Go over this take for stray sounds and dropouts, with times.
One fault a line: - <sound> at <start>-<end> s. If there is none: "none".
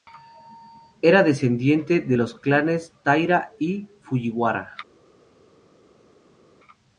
none